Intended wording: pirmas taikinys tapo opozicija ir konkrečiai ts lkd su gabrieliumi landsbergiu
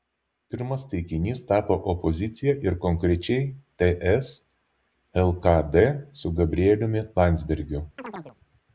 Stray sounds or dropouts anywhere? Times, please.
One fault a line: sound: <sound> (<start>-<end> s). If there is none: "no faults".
sound: chirp (8.0-8.4 s)